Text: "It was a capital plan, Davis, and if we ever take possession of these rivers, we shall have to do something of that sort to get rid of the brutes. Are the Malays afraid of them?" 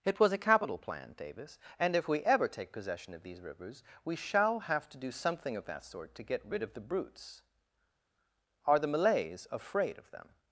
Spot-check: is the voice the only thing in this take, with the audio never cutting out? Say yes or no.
yes